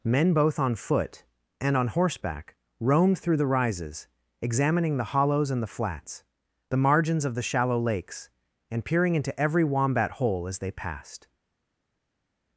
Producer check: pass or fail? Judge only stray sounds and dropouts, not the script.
pass